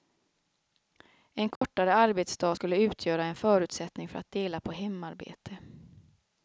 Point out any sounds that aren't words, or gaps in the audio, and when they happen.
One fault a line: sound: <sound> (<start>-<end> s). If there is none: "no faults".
sound: dropout (1.6-1.6 s)